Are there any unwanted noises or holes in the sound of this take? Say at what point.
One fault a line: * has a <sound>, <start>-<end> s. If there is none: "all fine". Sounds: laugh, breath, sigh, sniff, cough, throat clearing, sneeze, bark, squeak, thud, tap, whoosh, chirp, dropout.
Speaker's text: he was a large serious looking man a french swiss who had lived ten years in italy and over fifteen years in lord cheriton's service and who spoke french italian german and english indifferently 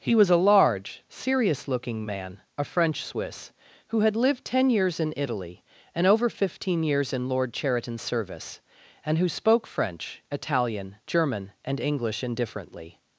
all fine